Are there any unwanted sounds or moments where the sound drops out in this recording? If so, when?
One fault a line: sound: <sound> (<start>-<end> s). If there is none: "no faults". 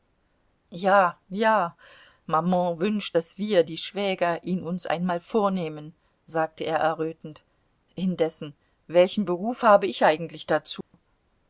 sound: dropout (10.8-10.9 s)